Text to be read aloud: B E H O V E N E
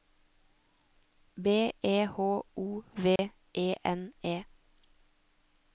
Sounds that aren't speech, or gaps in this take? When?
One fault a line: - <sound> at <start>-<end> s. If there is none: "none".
- dropout at 3.2-3.2 s